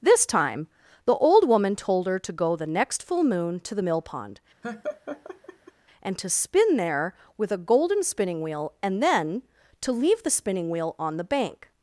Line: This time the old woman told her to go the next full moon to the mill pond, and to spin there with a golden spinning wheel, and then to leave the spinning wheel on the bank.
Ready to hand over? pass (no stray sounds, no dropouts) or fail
fail